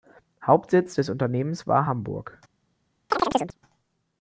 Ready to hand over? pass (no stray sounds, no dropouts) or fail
fail